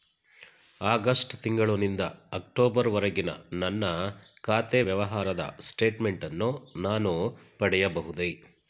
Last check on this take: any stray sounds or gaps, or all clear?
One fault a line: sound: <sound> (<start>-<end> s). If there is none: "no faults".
no faults